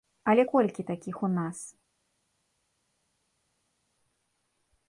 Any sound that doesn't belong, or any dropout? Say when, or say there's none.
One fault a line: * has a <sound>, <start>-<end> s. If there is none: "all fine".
all fine